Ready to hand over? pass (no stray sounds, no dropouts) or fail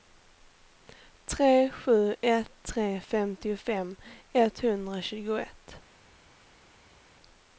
pass